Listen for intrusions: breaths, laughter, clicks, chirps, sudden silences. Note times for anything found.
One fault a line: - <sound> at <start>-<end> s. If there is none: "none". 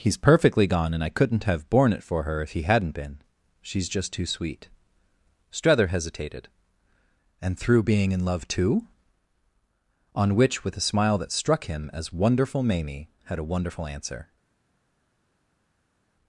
none